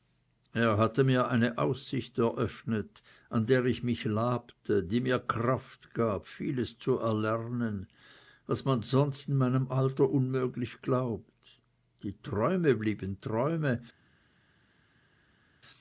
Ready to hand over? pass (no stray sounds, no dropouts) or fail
pass